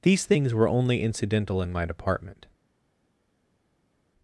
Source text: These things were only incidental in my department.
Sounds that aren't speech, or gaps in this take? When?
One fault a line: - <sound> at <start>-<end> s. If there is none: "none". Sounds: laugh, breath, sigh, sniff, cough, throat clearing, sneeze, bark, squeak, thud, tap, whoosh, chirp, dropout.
none